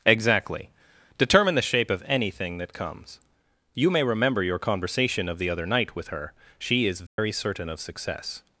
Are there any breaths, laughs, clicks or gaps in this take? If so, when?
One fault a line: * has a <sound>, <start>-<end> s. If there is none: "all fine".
* has a dropout, 7.1-7.2 s